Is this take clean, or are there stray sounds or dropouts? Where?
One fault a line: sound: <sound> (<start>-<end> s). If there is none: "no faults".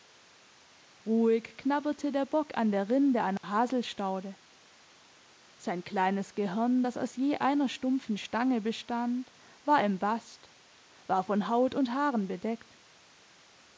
sound: dropout (3.4-3.4 s)